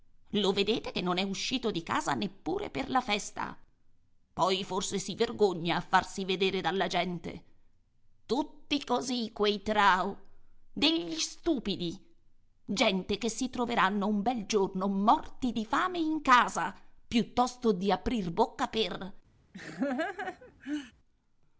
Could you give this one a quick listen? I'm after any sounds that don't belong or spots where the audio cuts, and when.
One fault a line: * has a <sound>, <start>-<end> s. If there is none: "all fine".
* has a laugh, 19.5-20.9 s